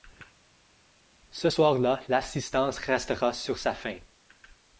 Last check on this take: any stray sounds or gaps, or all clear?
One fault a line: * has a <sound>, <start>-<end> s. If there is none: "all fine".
all fine